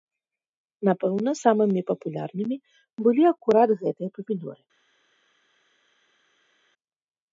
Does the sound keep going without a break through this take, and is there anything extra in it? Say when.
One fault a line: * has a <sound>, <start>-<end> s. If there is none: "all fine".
all fine